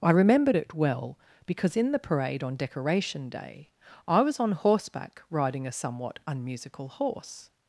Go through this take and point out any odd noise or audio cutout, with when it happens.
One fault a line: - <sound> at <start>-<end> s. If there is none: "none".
none